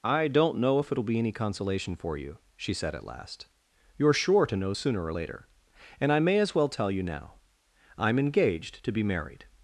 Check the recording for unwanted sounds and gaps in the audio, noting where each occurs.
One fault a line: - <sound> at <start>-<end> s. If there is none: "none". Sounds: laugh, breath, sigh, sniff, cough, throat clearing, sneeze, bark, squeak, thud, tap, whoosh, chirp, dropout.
none